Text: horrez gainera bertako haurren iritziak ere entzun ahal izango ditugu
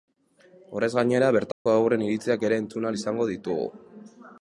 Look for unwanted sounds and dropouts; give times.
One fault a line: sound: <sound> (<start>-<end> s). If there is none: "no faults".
sound: dropout (1.5-1.7 s)